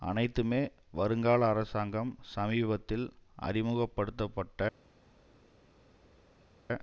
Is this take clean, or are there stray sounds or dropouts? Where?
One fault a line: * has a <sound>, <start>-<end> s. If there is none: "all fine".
all fine